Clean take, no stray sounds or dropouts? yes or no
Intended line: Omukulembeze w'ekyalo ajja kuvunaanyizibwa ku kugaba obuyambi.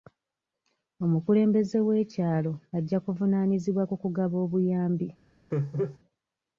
no